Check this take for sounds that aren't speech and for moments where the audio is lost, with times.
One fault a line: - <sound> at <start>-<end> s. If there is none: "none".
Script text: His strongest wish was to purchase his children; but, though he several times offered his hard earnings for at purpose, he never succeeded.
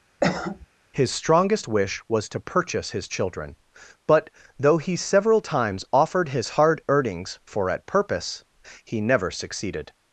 - cough at 0.2-0.7 s